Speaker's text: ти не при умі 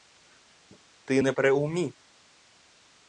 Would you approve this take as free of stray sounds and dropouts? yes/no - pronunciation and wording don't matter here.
yes